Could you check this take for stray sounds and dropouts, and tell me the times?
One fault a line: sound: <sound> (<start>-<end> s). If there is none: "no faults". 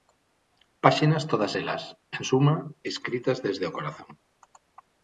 no faults